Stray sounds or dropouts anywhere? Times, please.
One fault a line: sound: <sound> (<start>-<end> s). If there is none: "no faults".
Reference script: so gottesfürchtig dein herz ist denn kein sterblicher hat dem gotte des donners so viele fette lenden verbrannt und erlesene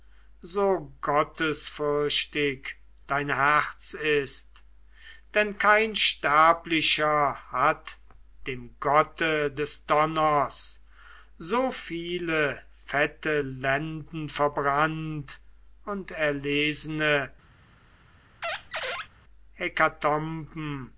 sound: squeak (18.4-19.1 s)